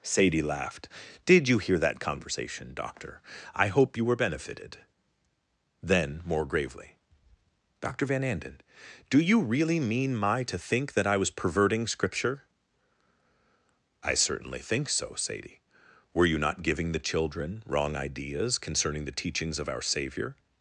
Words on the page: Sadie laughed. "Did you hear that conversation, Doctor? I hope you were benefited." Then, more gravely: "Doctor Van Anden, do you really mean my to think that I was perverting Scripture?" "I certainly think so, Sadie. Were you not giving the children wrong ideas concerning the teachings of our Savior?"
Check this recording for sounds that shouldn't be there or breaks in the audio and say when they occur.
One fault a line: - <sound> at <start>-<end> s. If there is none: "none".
none